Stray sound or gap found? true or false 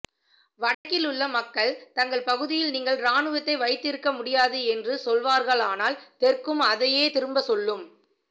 true